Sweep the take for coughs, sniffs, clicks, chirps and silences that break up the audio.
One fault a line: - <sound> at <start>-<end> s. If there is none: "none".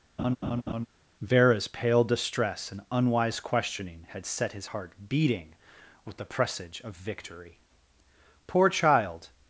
- laugh at 0.2-0.9 s